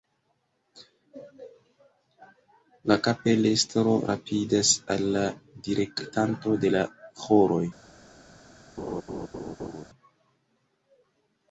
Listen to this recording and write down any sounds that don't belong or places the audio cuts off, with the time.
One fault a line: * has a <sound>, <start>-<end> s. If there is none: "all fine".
* has a laugh, 8.8-9.8 s